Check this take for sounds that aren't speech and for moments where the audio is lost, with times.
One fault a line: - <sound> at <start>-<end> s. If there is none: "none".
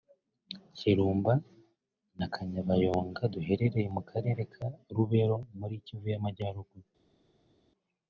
none